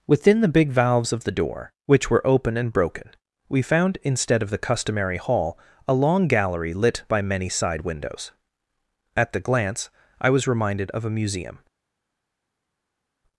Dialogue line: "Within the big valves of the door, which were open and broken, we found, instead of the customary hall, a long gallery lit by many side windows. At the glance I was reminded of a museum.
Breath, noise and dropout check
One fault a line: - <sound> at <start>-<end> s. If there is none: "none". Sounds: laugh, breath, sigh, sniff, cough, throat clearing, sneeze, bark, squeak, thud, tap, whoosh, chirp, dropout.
none